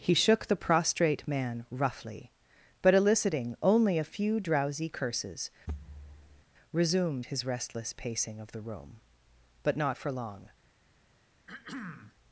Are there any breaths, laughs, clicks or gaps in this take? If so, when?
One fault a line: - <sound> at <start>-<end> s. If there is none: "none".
- thud at 5.7-6.4 s
- throat clearing at 11.5-12.1 s